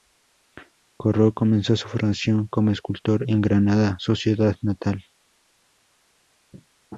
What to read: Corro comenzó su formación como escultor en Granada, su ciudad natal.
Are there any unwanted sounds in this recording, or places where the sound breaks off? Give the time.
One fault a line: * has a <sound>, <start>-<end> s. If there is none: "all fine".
all fine